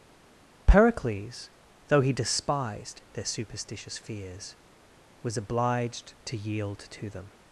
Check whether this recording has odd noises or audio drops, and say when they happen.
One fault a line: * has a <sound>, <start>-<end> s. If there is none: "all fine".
all fine